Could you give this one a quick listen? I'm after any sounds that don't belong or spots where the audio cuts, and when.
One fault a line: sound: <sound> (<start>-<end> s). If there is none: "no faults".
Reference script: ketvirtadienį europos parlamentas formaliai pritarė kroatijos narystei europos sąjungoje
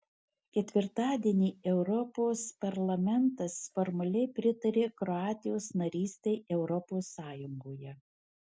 no faults